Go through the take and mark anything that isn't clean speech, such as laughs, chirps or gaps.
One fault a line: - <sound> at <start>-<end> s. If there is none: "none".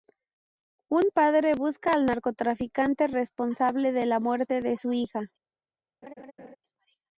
- laugh at 6.0-6.6 s